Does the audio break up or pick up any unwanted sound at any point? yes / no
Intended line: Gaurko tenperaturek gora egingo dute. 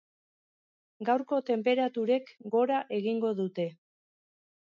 no